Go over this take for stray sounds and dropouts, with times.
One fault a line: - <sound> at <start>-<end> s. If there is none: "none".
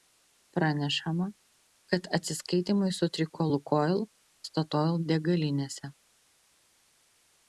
none